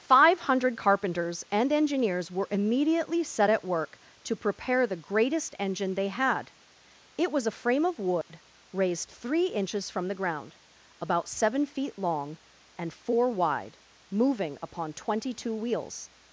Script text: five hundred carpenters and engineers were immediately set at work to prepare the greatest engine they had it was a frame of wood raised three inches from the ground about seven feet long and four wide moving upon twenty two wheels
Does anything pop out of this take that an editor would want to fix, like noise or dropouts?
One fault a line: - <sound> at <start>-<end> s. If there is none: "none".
- dropout at 8.2-8.3 s